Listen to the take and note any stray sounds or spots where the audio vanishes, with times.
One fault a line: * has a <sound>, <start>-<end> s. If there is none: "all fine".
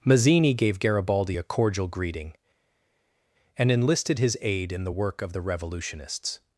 all fine